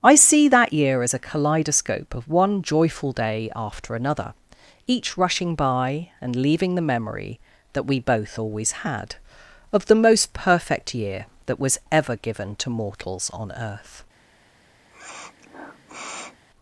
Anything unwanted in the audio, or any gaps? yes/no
yes